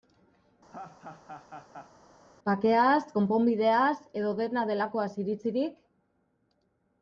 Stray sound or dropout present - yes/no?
yes